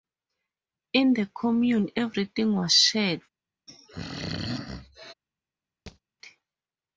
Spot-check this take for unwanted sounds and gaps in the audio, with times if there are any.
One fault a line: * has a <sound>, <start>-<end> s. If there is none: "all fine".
* has a throat clearing, 3.7-5.1 s
* has a thud, 5.9-6.0 s